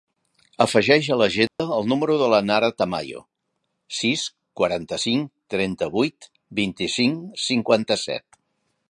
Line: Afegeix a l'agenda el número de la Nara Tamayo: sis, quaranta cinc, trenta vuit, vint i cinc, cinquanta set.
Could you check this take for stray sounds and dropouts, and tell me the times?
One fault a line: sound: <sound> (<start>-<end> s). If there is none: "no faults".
sound: dropout (1.5-1.6 s)